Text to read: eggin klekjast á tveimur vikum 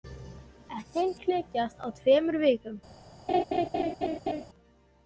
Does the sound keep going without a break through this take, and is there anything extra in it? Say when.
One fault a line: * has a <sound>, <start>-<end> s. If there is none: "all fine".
* has a laugh, 3.3-4.5 s